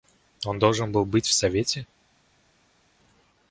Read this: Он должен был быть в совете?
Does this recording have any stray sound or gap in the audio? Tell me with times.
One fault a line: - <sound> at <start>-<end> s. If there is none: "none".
none